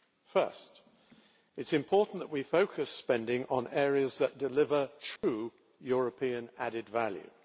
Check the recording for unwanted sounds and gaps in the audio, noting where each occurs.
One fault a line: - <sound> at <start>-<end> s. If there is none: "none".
- dropout at 5.2-5.2 s